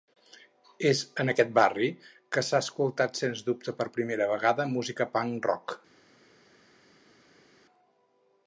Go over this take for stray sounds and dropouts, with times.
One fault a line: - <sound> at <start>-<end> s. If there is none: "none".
none